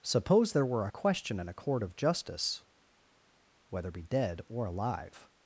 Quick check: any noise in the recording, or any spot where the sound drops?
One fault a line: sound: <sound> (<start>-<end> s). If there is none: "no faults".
no faults